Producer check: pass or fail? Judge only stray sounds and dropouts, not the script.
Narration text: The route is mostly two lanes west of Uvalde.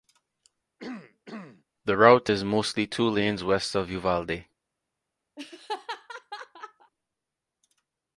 fail